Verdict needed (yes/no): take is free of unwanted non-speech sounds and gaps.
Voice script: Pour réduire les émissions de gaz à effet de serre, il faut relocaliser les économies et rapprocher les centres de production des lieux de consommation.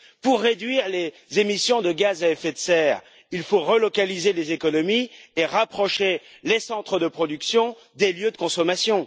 yes